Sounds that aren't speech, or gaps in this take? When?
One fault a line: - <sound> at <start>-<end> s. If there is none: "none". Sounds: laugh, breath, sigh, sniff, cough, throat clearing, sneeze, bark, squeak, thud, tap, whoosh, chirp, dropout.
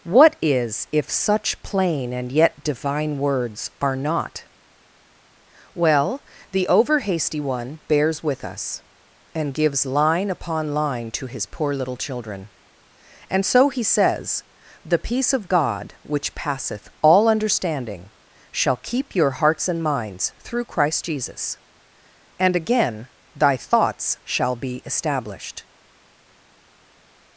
none